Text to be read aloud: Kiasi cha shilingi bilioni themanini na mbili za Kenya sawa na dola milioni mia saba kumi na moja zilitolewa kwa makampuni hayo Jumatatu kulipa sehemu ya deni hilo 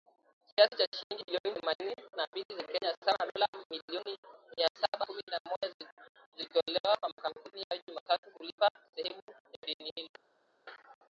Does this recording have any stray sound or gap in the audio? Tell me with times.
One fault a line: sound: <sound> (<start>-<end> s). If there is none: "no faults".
no faults